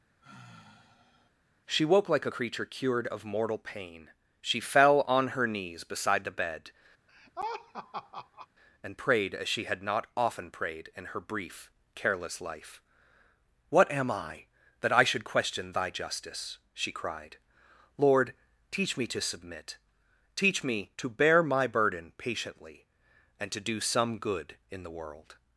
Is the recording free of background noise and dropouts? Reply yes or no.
no